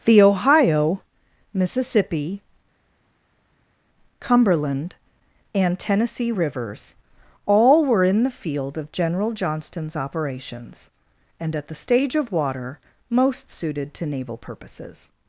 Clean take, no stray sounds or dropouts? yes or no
yes